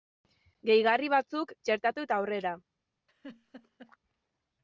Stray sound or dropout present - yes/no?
yes